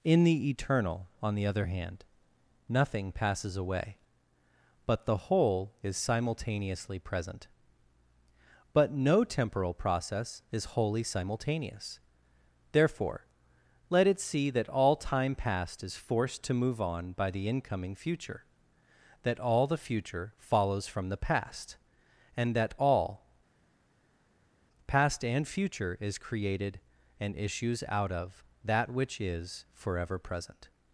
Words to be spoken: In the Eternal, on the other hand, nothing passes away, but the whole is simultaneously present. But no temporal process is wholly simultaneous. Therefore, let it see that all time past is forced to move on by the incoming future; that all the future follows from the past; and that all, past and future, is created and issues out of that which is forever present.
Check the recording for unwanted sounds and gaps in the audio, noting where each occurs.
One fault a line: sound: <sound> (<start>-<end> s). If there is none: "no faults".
no faults